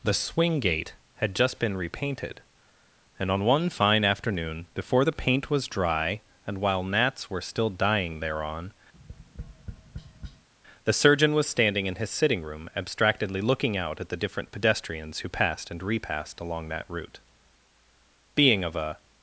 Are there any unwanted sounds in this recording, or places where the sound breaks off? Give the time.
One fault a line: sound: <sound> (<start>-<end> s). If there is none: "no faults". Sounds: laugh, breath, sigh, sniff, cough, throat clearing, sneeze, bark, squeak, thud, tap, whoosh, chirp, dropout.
sound: tap (8.9-10.5 s)